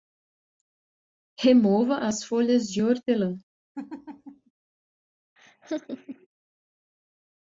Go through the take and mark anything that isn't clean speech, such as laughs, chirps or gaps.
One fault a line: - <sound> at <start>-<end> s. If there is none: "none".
- laugh at 3.7-4.5 s
- laugh at 5.4-6.3 s